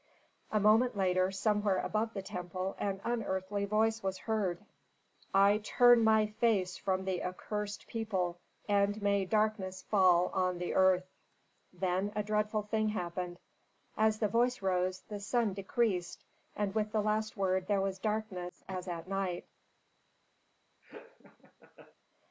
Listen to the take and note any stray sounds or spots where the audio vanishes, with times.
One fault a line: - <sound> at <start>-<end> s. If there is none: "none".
- laugh at 20.8-22.0 s